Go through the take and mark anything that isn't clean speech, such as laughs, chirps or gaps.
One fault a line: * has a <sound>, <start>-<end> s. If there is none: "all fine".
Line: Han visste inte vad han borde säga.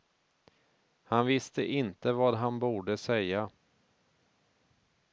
all fine